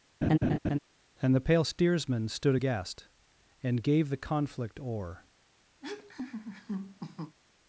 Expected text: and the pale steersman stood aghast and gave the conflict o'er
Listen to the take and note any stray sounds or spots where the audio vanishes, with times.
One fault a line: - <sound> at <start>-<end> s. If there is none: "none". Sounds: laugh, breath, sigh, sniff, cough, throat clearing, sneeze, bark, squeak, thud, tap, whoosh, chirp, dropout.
- laugh at 0.2-0.8 s
- laugh at 5.8-7.4 s